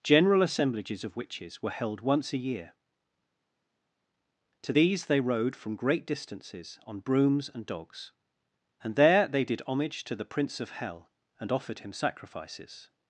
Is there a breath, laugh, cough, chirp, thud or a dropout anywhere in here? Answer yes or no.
no